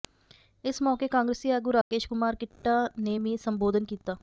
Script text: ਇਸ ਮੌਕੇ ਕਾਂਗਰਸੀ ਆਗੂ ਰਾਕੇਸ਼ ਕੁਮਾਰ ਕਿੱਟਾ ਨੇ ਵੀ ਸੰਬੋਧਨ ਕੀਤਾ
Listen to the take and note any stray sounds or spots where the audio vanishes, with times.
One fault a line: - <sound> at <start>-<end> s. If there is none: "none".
- dropout at 1.8-1.9 s